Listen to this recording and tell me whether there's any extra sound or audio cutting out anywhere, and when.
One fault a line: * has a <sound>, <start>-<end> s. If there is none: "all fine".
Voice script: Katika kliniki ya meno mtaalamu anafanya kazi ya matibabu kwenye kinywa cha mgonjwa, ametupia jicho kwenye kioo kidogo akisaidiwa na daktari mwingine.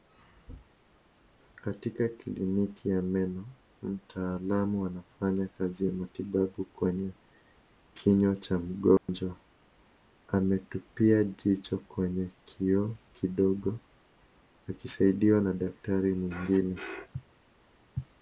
* has a dropout, 9.0-9.1 s